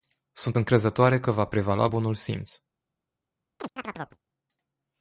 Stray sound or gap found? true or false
true